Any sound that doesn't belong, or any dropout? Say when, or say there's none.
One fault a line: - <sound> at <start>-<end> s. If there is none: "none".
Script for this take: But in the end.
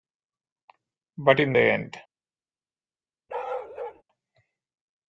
- bark at 3.3-4.0 s